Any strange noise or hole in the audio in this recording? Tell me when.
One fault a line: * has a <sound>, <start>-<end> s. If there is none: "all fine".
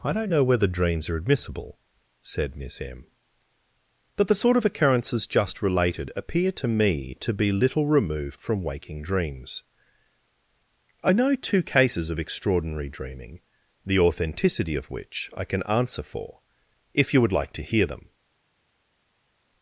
all fine